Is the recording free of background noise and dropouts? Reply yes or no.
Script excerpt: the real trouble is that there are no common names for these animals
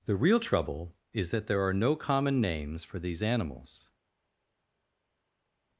yes